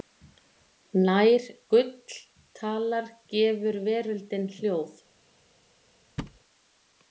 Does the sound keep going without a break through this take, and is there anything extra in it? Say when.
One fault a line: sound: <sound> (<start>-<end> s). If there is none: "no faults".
sound: thud (6.2-6.4 s)